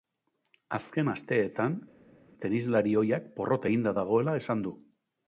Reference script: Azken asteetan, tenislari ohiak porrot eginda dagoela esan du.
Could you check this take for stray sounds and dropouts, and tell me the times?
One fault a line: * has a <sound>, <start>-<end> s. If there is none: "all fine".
all fine